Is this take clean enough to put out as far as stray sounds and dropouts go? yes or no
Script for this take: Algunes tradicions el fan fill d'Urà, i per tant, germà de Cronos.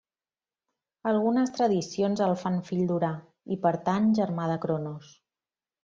yes